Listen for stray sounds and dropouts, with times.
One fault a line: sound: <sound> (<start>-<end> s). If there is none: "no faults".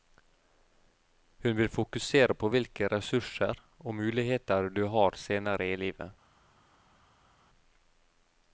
no faults